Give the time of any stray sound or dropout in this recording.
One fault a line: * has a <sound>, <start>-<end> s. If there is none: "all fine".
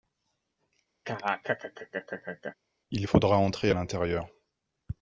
* has a laugh, 1.0-2.6 s